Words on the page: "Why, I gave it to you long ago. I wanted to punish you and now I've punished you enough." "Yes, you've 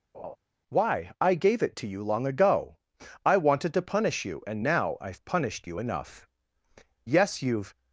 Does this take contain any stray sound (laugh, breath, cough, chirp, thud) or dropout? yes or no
yes